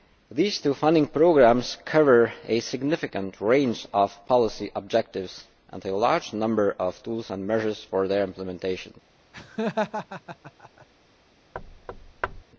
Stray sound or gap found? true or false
true